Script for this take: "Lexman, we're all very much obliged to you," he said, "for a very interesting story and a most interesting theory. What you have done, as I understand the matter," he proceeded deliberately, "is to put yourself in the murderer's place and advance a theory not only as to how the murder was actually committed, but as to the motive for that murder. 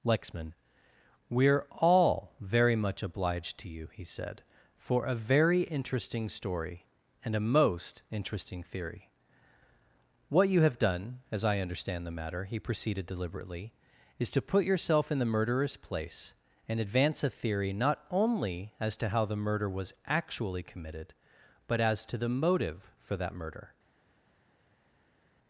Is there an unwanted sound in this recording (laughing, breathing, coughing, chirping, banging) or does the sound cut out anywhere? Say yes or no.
no